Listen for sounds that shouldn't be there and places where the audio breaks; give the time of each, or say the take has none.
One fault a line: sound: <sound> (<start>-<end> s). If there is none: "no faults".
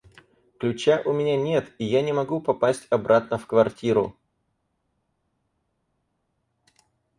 no faults